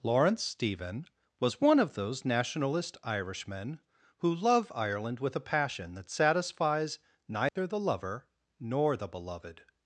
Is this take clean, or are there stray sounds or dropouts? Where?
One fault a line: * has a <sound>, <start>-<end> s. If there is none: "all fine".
* has a dropout, 7.5-7.6 s